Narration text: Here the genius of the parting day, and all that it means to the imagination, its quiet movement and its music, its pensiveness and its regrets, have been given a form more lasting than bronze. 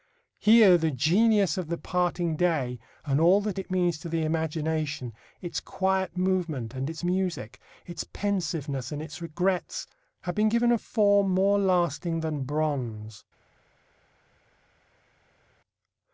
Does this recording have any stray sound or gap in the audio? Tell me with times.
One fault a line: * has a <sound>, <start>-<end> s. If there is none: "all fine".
all fine